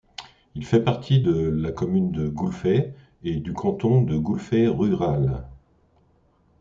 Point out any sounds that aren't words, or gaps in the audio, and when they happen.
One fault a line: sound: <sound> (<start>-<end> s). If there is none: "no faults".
no faults